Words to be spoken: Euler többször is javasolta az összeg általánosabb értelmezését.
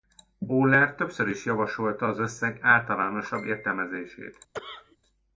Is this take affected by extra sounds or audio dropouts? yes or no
yes